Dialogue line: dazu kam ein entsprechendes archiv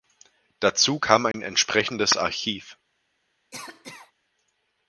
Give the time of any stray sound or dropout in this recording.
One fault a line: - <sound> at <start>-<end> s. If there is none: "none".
- dropout at 1.3-1.3 s
- cough at 3.5-4.1 s